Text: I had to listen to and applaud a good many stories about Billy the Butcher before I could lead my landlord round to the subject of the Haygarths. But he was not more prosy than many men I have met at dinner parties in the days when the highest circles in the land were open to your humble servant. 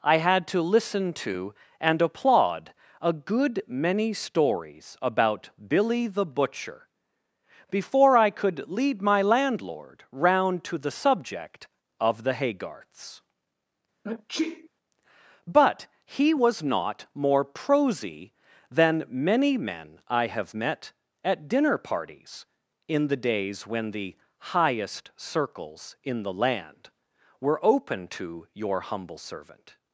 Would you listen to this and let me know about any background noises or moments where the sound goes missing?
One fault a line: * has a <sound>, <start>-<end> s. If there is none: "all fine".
* has a sneeze, 14.0-14.7 s